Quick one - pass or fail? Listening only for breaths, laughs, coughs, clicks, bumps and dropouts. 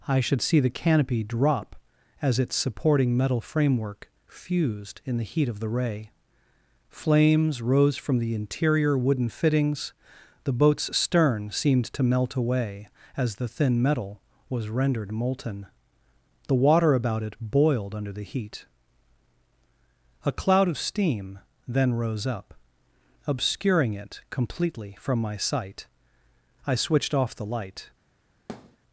fail